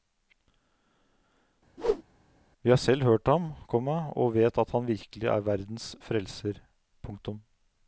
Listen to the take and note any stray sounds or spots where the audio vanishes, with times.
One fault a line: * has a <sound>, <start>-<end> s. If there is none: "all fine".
* has a whoosh, 1.8-2.0 s